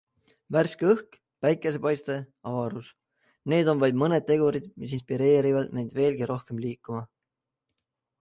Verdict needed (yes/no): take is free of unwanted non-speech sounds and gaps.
yes